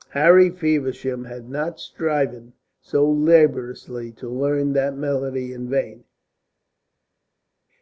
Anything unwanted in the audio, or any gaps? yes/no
no